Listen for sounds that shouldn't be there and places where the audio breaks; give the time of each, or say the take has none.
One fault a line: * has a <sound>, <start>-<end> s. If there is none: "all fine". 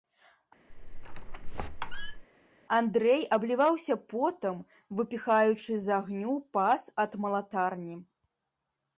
* has a squeak, 0.7-2.2 s